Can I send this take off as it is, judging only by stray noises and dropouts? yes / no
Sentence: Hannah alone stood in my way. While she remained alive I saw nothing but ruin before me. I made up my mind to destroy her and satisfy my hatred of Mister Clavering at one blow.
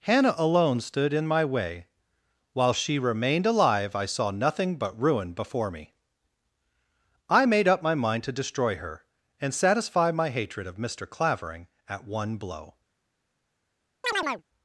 no